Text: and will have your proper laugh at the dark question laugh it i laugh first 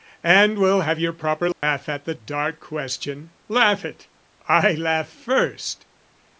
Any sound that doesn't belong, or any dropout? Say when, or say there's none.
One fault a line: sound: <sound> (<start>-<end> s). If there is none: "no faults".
sound: dropout (1.5-1.6 s)